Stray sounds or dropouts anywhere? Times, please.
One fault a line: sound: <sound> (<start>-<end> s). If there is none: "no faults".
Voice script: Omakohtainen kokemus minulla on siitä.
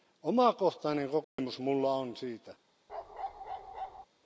sound: dropout (1.2-1.4 s)
sound: bark (2.9-4.1 s)